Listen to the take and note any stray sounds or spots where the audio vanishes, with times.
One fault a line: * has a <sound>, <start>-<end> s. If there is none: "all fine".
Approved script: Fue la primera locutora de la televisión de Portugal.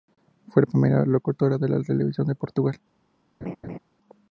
* has a laugh, 3.4-3.8 s